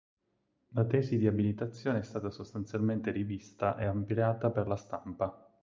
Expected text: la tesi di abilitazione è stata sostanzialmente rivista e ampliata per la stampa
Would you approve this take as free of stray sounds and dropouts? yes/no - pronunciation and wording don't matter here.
yes